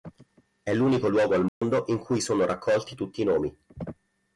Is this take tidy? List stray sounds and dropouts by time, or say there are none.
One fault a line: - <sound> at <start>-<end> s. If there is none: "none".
- dropout at 1.5-1.6 s